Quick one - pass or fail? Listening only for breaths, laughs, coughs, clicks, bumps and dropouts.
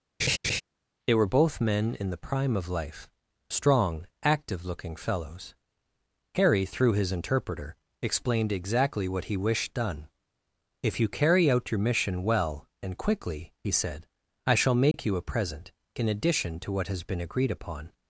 fail